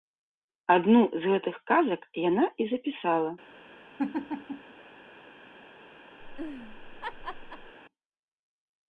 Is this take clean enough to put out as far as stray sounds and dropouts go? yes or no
no